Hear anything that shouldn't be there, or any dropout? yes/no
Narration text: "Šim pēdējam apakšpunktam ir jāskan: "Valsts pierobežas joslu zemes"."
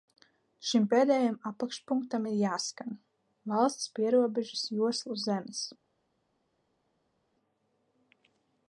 no